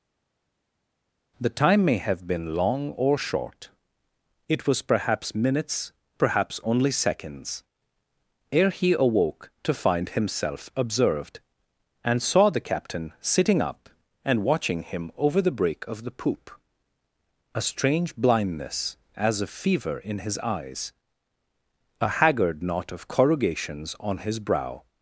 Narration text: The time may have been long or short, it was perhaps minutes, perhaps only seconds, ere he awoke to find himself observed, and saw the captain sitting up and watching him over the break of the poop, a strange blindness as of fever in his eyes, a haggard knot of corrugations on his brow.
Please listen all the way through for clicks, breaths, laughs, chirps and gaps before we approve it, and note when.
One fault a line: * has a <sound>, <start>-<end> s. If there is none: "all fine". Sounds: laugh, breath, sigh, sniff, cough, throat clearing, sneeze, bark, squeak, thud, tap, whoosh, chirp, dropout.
all fine